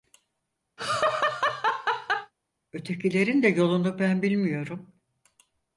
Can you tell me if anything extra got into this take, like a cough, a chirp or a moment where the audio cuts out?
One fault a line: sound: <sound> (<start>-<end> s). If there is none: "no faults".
sound: laugh (0.8-2.3 s)